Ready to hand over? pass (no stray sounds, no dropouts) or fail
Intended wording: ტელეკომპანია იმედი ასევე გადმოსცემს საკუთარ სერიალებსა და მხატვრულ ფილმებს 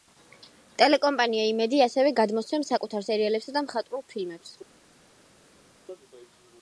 pass